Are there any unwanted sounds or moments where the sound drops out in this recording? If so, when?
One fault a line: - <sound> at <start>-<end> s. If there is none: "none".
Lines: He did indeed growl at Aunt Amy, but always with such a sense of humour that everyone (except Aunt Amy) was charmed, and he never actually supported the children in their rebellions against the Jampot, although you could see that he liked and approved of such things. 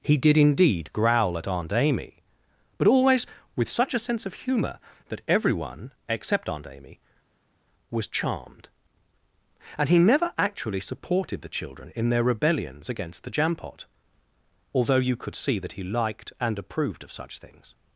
none